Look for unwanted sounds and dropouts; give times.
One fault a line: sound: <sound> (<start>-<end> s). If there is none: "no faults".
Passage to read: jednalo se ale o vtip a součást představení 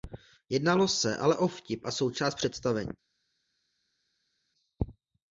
no faults